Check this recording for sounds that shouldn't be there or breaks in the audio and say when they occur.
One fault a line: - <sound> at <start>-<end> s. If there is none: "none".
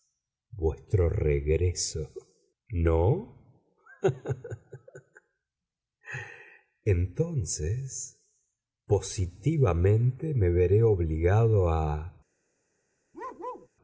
- bark at 13.1-13.7 s